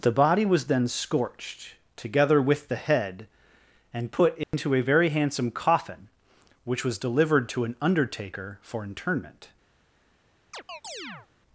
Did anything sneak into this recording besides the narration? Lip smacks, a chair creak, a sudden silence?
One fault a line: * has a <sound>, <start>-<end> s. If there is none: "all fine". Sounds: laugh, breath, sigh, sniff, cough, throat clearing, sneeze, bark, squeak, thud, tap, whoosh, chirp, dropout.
* has a dropout, 4.4-4.5 s
* has a chirp, 10.5-11.3 s